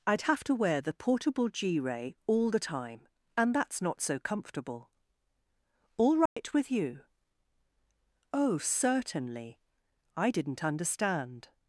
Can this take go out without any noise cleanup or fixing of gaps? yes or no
no